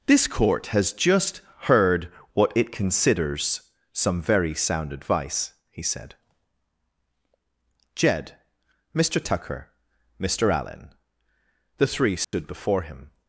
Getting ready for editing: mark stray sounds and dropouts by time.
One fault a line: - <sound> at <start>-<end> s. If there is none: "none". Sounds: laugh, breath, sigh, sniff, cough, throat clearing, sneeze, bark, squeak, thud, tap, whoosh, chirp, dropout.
- dropout at 12.2-12.3 s